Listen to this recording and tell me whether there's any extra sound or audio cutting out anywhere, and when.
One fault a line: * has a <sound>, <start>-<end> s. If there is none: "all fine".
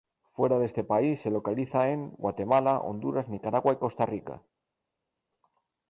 all fine